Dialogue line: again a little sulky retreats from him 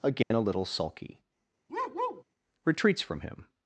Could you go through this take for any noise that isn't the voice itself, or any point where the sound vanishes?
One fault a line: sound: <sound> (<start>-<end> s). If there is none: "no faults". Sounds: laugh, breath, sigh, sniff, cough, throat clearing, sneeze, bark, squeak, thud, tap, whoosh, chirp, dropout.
sound: dropout (0.2-0.3 s)
sound: bark (1.7-2.2 s)